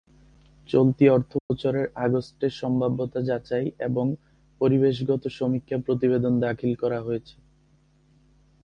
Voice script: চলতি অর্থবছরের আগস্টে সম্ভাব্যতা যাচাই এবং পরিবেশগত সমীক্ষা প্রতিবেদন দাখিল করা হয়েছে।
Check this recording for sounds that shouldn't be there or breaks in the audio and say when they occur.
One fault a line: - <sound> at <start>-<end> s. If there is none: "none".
- dropout at 1.4-1.5 s